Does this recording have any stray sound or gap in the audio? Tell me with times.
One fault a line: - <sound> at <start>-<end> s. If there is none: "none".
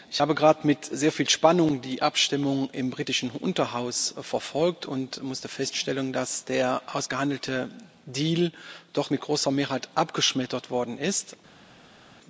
none